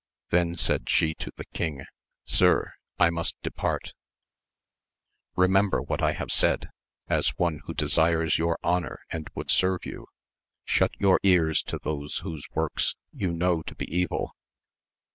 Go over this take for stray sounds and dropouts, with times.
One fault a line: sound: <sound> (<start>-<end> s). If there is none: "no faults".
no faults